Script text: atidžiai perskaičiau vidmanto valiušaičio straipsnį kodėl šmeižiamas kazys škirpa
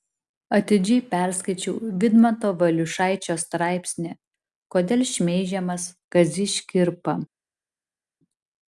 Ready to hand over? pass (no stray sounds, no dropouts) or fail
pass